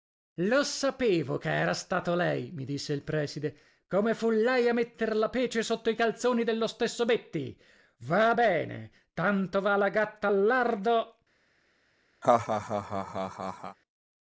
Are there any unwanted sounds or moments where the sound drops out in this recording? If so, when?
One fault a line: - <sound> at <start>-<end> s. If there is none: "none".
- laugh at 12.2-13.8 s